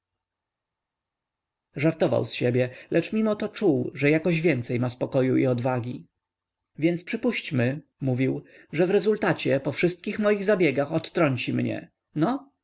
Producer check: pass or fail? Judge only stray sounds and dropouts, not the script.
pass